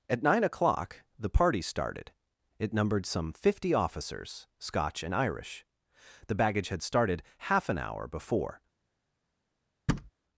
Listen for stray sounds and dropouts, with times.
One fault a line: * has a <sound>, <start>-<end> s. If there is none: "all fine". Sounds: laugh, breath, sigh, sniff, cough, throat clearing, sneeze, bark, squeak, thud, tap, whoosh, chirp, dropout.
* has a thud, 9.9-10.1 s